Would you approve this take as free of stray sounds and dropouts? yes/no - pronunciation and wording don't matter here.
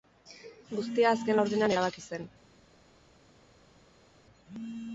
yes